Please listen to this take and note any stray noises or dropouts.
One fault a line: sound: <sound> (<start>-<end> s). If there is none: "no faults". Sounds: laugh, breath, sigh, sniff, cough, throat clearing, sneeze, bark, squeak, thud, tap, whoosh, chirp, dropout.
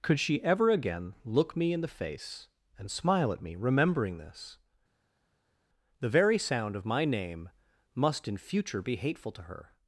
no faults